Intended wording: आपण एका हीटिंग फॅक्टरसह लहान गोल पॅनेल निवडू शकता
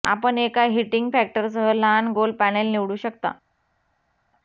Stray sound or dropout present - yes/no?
no